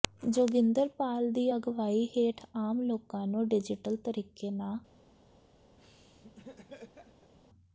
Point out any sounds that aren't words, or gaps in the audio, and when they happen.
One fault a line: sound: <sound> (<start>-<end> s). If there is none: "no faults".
sound: laugh (5.8-7.3 s)